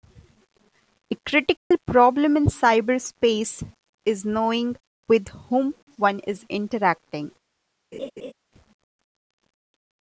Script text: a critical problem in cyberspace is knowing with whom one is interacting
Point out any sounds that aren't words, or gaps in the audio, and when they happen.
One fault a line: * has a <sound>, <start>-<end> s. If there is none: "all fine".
* has a dropout, 1.6-1.7 s
* has a laugh, 7.9-8.3 s